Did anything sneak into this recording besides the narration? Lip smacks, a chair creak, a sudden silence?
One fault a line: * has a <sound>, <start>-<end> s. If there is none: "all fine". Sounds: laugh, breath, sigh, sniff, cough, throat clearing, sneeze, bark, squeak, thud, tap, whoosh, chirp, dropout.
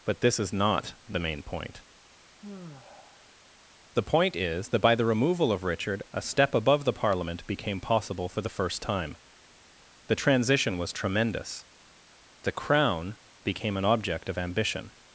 * has a sigh, 2.4-3.4 s